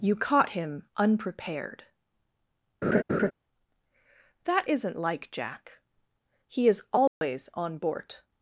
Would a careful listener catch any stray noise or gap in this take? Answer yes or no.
yes